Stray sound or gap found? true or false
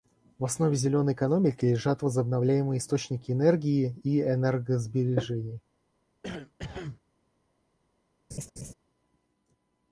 true